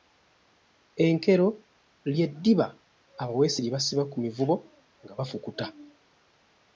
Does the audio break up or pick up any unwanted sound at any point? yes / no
no